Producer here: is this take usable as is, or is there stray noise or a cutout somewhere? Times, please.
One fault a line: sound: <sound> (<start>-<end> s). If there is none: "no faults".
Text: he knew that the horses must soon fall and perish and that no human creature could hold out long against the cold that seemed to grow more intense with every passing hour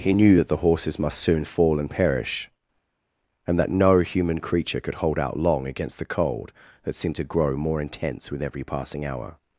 no faults